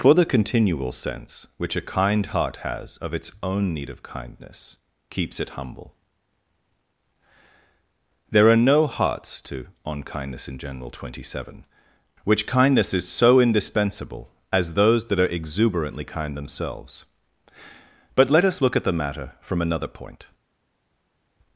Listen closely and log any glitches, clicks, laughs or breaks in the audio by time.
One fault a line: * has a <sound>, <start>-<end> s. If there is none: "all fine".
all fine